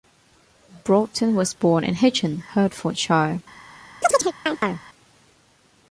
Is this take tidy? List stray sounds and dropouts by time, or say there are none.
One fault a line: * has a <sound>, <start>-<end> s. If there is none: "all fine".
* has a chirp, 4.0-4.8 s